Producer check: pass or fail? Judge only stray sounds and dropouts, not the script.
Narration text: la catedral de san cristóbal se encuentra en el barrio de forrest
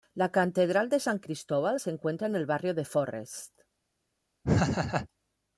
fail